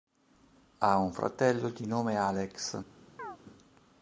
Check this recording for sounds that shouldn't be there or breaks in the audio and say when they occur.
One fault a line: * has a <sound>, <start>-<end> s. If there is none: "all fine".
* has a chirp, 3.2-3.4 s